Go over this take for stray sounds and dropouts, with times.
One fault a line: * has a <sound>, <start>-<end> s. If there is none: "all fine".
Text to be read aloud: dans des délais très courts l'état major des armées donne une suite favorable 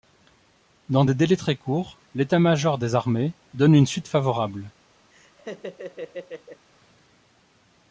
* has a laugh, 5.1-6.7 s